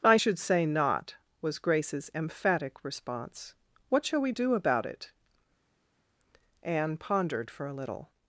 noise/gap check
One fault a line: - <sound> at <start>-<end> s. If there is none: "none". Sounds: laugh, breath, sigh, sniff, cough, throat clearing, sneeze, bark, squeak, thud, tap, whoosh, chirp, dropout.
none